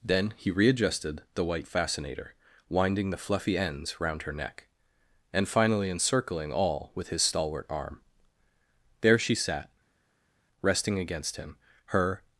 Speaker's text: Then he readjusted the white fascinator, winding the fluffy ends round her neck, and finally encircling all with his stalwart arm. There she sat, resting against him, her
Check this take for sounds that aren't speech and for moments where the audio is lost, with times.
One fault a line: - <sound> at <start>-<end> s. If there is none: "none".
none